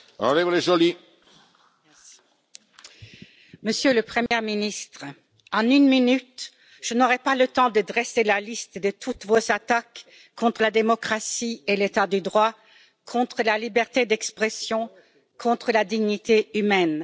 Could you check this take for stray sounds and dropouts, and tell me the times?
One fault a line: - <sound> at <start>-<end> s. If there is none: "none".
- dropout at 4.3-4.3 s